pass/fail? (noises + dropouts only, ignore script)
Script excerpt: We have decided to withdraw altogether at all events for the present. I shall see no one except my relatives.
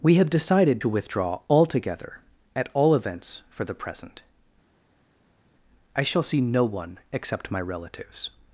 pass